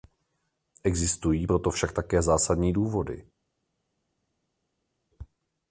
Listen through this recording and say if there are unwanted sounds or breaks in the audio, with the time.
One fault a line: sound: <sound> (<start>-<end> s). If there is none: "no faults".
no faults